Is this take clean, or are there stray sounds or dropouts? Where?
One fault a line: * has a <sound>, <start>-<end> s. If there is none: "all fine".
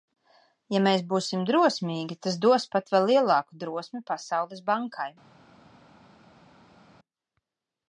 all fine